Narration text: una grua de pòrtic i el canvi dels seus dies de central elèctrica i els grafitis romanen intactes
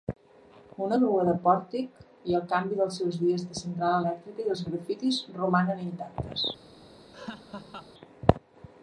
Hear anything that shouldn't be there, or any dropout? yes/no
yes